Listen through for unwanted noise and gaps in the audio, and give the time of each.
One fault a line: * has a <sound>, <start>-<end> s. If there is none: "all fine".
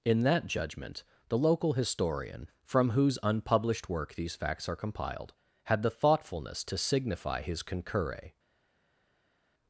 all fine